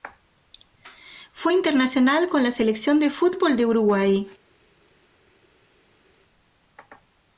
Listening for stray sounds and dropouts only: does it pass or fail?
pass